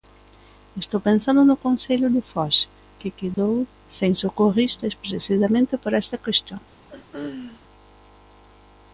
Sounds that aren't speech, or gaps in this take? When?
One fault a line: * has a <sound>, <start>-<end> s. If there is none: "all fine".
* has a dropout, 3.3-3.4 s
* has a throat clearing, 6.9-7.6 s